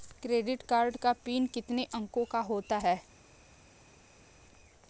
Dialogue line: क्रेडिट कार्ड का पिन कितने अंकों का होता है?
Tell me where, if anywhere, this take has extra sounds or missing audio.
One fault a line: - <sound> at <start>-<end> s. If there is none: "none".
none